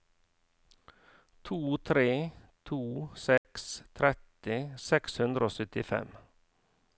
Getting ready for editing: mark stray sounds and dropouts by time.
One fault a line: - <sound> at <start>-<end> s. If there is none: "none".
- dropout at 3.4-3.4 s